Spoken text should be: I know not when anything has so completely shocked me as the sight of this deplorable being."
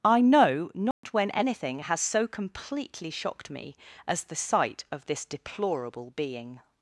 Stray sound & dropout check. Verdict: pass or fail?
fail